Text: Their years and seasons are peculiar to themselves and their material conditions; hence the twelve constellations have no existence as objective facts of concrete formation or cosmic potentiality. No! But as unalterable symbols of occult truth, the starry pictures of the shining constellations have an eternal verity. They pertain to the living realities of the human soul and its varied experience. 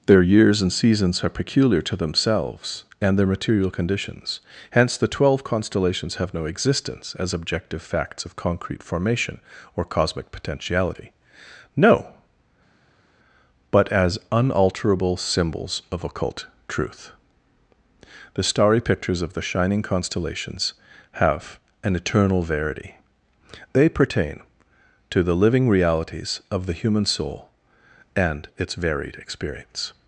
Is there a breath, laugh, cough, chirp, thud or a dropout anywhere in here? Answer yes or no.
no